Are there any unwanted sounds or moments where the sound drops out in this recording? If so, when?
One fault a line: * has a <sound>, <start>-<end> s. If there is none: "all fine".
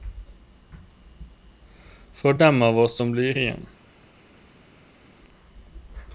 all fine